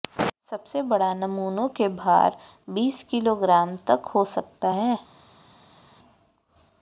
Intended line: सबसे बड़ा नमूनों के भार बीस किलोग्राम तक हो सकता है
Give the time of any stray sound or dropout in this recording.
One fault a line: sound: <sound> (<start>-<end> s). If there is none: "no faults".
no faults